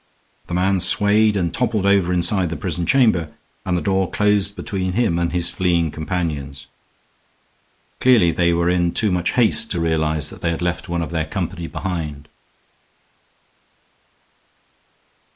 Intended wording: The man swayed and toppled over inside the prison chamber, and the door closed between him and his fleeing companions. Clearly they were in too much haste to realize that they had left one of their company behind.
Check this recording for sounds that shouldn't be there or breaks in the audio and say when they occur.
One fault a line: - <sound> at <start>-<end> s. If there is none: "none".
none